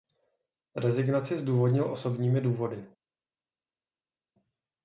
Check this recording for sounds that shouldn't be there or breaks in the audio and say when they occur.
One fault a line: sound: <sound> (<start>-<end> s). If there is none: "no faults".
no faults